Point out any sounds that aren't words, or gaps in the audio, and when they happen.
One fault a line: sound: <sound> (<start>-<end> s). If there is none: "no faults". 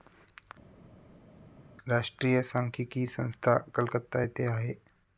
no faults